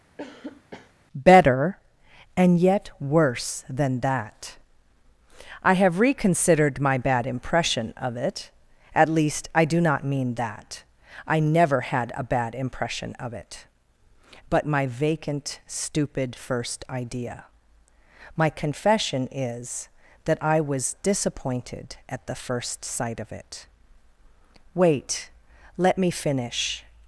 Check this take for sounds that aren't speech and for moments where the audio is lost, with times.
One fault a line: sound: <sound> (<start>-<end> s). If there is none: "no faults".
sound: cough (0.2-0.9 s)